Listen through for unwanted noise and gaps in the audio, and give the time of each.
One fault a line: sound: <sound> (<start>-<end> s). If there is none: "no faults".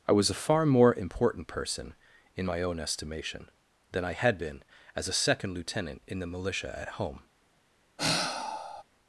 sound: sigh (8.0-8.8 s)